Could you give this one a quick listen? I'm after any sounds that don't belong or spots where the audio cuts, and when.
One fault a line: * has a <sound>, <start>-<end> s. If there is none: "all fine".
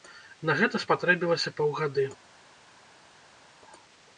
all fine